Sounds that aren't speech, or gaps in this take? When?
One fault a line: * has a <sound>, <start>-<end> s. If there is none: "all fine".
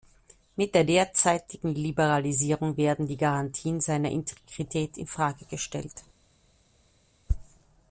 all fine